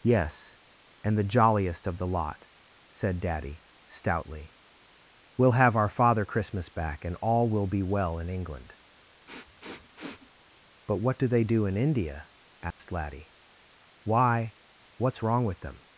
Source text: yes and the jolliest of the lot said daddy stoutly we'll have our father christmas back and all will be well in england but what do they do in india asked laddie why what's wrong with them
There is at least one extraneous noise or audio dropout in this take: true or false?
true